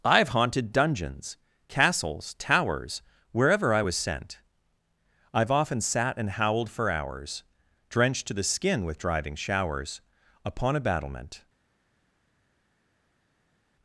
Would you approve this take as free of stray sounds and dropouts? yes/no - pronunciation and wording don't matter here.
yes